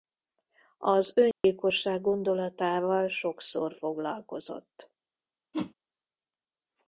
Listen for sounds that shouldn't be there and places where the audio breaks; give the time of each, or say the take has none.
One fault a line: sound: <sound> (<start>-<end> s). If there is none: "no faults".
sound: dropout (1.3-1.4 s)
sound: whoosh (5.5-5.7 s)